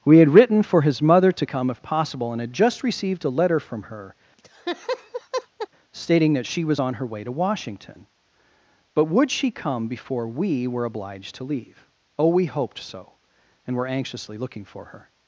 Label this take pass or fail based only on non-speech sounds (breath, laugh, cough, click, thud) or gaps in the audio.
fail